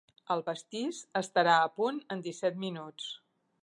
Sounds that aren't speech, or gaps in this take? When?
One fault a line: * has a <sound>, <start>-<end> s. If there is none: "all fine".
all fine